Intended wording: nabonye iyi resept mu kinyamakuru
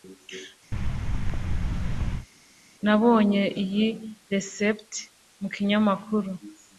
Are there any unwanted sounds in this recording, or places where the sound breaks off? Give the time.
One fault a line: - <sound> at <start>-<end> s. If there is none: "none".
- thud at 0.7-2.3 s